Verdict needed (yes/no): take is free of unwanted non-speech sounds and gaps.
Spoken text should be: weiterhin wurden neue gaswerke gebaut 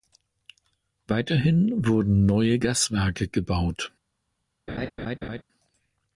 no